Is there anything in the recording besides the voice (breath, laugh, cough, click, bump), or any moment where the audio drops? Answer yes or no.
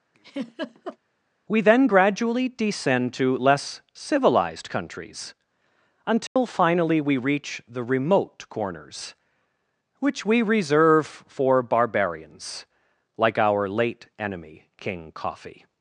yes